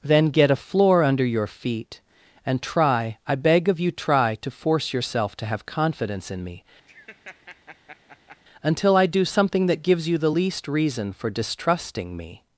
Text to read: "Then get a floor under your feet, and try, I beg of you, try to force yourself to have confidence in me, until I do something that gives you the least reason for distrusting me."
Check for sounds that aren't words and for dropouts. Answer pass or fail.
fail